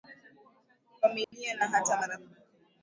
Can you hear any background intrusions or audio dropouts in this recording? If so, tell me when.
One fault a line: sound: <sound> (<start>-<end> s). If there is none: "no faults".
sound: dropout (1.2-1.3 s)